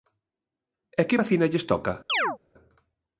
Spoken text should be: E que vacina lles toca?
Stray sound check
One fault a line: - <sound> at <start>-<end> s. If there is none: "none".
- chirp at 2.1-2.4 s